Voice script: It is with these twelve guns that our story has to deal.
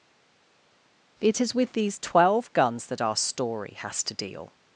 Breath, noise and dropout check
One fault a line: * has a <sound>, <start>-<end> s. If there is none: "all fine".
all fine